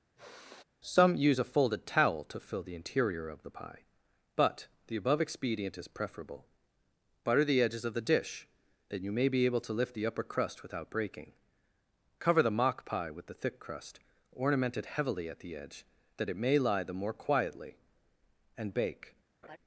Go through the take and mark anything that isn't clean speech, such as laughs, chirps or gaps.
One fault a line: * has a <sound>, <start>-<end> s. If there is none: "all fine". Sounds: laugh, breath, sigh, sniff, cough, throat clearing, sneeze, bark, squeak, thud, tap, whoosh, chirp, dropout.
* has a sigh, 0.2-0.6 s
* has a laugh, 19.4-19.6 s